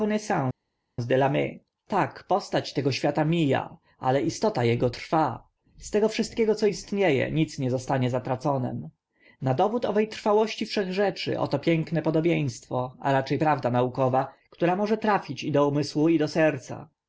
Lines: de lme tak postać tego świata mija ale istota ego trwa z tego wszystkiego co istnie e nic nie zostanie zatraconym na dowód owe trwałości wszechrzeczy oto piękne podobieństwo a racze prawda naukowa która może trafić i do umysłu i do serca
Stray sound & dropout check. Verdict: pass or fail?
pass